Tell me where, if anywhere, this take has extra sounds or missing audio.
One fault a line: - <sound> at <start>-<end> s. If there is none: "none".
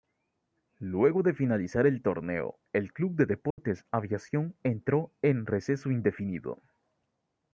- dropout at 3.5-3.6 s